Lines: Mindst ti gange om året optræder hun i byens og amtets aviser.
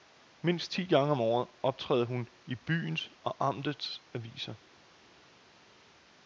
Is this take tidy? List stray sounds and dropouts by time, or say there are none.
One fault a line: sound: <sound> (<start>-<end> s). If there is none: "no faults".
no faults